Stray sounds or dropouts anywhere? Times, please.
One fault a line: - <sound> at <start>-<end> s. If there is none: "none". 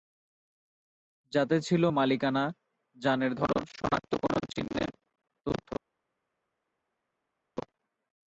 none